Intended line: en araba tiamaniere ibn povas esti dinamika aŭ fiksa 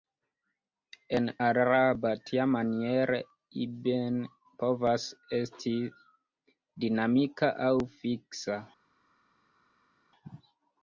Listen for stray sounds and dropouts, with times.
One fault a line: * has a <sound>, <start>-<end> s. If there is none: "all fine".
all fine